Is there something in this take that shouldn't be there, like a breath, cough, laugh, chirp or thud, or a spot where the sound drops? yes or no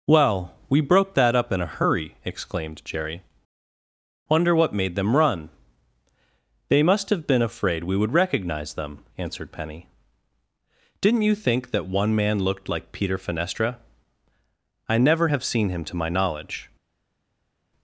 no